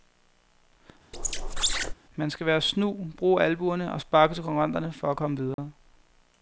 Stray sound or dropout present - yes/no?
yes